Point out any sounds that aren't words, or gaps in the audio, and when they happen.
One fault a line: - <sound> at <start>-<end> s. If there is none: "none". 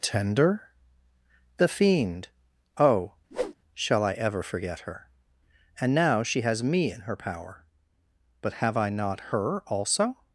- whoosh at 3.3-3.6 s